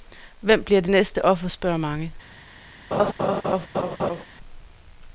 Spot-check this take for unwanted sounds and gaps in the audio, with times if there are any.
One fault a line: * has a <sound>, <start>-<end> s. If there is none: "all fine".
* has a laugh, 2.9-4.2 s